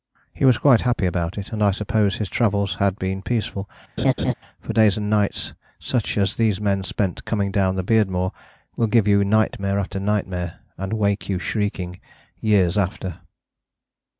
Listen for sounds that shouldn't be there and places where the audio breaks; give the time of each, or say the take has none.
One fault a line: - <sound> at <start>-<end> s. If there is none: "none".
- laugh at 4.0-4.3 s